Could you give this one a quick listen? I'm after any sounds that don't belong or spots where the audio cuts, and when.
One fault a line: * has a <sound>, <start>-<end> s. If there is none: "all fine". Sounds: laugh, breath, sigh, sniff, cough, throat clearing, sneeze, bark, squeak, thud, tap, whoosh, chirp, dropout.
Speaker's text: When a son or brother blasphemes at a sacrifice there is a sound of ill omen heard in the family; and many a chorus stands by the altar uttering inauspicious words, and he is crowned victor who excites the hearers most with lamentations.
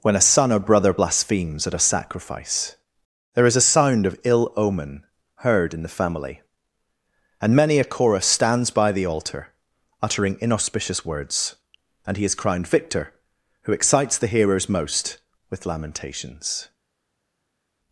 all fine